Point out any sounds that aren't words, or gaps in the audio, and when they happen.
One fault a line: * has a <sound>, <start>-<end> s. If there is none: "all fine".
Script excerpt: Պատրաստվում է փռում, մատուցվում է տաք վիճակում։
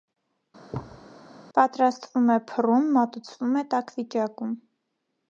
* has a thud, 0.7-1.1 s